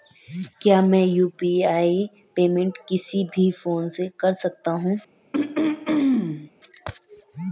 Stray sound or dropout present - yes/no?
yes